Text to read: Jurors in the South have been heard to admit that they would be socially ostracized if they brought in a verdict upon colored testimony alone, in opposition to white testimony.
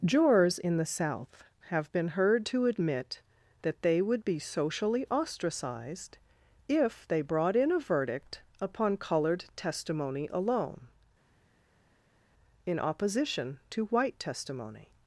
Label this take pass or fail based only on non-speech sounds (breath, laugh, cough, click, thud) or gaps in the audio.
pass